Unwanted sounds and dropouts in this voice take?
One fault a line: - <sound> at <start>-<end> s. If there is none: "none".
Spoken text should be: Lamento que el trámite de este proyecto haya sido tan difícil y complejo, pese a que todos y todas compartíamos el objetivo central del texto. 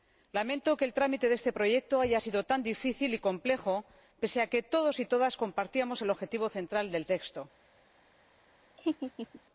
- laugh at 8.8-9.4 s